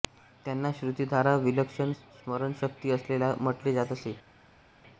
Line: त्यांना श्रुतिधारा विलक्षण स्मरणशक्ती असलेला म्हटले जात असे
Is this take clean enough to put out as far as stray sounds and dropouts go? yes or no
yes